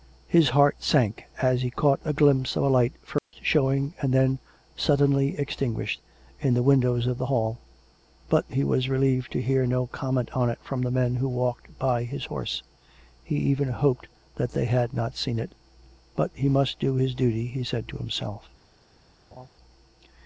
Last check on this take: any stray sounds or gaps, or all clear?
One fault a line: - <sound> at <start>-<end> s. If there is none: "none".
- dropout at 3.2-3.3 s
- laugh at 19.3-19.5 s